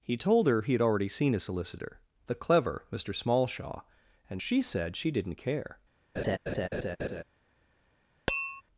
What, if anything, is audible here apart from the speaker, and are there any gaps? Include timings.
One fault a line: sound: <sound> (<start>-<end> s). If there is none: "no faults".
sound: laugh (6.2-7.2 s)
sound: tap (8.3-8.6 s)